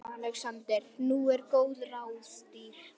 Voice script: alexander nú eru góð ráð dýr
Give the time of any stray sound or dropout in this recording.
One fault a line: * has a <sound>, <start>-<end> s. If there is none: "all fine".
all fine